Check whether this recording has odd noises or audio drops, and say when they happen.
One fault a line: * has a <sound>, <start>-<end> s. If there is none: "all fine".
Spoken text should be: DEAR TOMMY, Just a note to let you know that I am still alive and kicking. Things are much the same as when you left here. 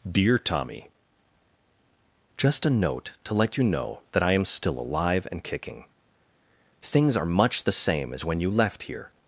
all fine